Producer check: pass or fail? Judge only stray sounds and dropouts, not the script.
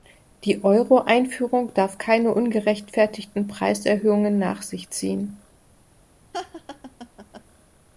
fail